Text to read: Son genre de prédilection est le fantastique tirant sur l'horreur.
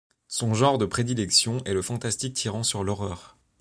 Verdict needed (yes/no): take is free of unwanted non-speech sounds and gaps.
yes